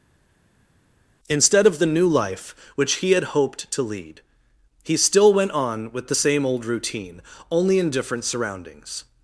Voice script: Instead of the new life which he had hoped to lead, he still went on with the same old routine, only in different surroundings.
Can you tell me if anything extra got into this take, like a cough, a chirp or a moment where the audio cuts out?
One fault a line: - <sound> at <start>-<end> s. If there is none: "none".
none